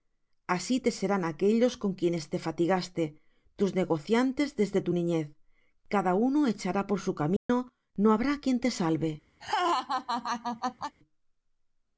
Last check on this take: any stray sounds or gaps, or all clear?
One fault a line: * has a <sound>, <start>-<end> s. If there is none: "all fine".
* has a dropout, 7.4-7.5 s
* has a laugh, 9.4-11.0 s